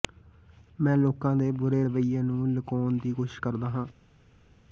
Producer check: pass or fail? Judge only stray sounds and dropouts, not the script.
pass